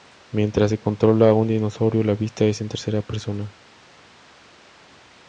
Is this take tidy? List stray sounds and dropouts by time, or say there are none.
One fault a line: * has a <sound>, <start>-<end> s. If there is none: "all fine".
all fine